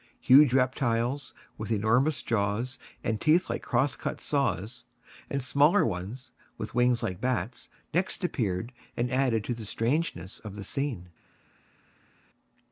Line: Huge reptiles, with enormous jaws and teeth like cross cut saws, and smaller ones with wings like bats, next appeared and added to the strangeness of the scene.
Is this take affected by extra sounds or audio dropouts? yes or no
no